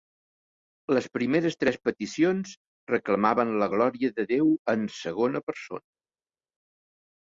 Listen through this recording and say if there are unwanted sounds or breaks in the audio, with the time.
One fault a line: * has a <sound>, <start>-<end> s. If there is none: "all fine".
all fine